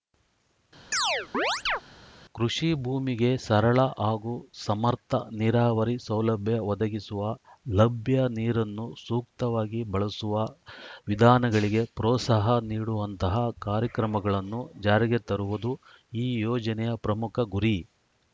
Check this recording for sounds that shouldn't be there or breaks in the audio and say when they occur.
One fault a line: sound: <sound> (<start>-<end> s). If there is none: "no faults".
sound: chirp (0.9-1.8 s)